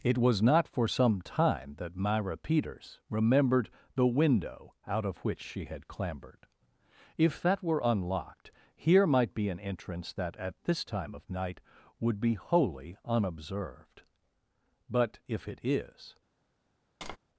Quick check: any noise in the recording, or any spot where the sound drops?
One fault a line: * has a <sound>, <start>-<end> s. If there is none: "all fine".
* has a tap, 17.0-17.2 s